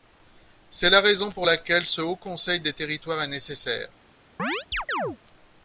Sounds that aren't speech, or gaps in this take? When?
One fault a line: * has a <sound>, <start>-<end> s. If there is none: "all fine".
* has a chirp, 4.4-5.2 s